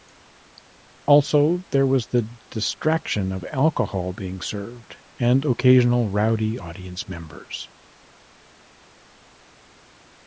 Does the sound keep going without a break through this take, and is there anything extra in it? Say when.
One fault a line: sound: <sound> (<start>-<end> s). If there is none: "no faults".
no faults